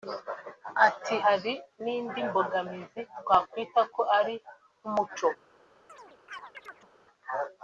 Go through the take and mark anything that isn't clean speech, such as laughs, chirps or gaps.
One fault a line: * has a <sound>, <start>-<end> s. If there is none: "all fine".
* has a chirp, 5.9-6.9 s